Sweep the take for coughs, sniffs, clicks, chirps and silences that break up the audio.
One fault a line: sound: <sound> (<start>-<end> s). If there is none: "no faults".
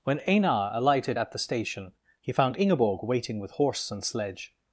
no faults